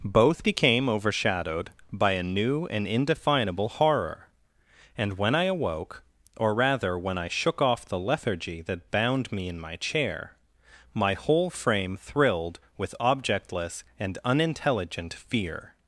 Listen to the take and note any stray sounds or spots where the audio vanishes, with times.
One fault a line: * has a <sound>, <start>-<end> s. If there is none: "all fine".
all fine